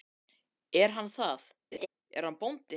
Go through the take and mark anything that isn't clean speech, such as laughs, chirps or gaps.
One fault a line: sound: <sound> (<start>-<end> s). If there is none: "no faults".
sound: laugh (1.7-1.9 s)